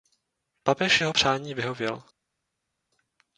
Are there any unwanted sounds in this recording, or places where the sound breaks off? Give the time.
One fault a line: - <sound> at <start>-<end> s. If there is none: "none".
none